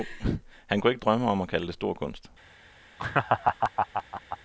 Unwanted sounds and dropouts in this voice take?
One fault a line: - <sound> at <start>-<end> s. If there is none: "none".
- laugh at 3.0-4.4 s